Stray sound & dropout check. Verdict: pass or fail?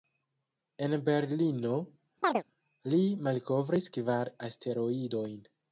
fail